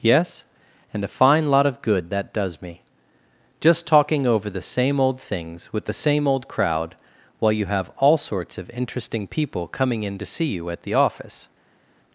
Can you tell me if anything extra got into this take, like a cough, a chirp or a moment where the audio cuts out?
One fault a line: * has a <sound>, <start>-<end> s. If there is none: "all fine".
all fine